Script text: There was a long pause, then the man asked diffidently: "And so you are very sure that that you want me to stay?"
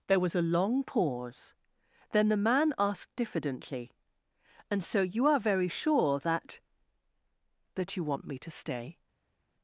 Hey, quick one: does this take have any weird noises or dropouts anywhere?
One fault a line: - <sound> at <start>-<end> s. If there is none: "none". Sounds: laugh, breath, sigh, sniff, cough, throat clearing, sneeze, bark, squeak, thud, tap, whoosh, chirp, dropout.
none